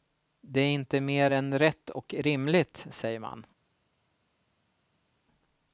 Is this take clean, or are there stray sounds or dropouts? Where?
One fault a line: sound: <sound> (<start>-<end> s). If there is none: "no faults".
no faults